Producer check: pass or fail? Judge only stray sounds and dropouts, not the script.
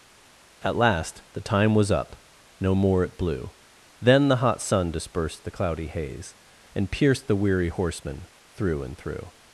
pass